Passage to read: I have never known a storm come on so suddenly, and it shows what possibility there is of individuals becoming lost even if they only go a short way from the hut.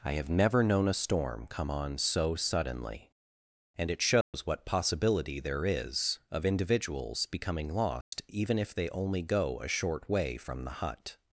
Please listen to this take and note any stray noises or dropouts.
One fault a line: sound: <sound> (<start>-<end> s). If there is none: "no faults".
sound: dropout (4.2-4.3 s)
sound: dropout (8.0-8.1 s)